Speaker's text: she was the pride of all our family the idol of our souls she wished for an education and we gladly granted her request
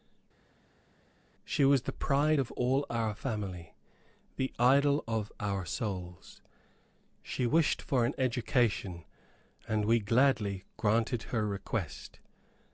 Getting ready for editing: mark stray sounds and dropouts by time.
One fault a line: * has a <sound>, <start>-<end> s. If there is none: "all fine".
all fine